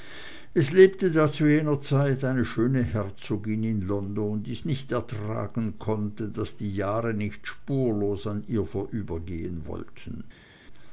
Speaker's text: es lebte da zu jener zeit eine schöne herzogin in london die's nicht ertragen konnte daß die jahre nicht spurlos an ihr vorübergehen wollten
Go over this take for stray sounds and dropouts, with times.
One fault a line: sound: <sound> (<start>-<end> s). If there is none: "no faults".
no faults